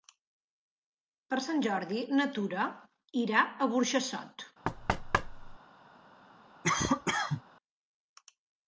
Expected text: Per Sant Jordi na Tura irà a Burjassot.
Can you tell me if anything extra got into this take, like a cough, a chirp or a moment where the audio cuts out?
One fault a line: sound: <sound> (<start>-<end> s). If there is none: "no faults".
sound: thud (4.6-5.6 s)
sound: cough (6.6-7.4 s)